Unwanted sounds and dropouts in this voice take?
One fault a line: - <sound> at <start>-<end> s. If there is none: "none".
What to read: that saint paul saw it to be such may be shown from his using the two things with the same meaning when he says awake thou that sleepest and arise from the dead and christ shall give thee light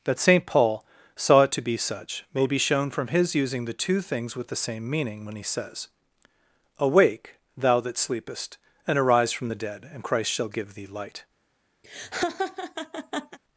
- laugh at 11.8-13.4 s